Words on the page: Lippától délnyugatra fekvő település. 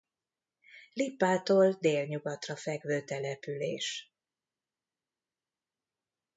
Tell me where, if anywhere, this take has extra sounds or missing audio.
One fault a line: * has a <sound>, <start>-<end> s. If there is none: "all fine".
all fine